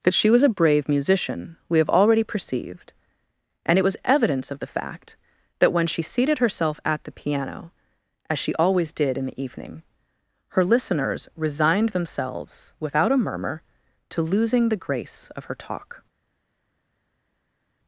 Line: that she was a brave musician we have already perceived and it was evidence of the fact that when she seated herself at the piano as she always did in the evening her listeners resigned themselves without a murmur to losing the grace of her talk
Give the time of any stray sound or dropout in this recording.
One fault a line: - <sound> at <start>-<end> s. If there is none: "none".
none